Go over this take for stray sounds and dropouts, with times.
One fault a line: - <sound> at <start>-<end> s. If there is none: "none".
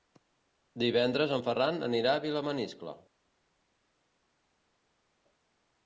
none